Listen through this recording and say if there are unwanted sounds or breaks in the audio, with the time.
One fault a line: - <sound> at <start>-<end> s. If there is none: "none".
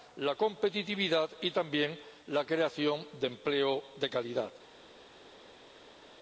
none